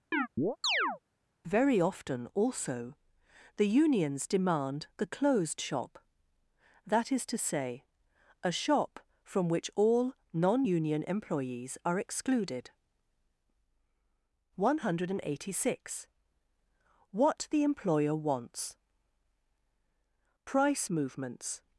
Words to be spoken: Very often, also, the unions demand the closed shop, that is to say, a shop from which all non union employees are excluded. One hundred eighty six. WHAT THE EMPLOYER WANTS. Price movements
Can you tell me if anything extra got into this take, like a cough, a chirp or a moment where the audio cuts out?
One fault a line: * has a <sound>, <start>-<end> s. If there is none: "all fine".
* has a chirp, 0.1-1.0 s